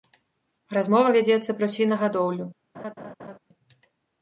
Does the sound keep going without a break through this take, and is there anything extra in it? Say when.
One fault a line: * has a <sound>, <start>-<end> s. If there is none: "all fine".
* has a laugh, 2.7-3.4 s